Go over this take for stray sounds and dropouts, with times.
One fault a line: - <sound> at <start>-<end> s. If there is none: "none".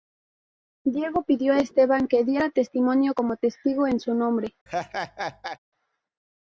- laugh at 4.7-5.6 s